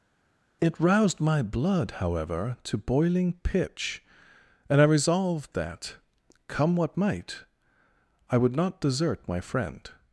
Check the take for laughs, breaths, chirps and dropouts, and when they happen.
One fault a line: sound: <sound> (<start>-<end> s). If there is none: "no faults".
no faults